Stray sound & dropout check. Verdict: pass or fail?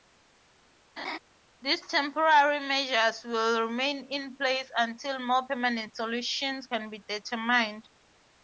fail